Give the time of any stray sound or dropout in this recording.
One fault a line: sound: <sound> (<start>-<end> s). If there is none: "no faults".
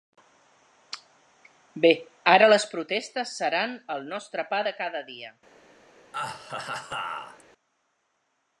sound: laugh (6.1-7.4 s)